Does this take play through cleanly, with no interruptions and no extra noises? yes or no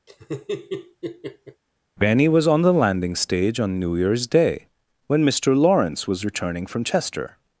no